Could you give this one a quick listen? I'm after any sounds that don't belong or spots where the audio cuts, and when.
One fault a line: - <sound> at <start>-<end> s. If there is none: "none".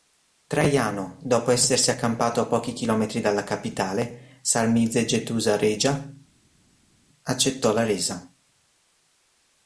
none